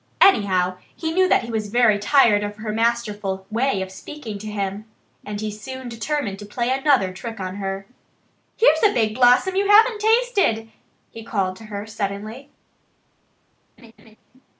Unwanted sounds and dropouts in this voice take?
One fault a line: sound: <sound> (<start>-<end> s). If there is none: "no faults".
sound: laugh (13.8-14.2 s)